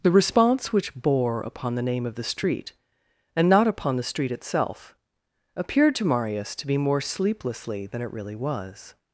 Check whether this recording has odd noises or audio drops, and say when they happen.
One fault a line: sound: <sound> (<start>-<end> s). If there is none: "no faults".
no faults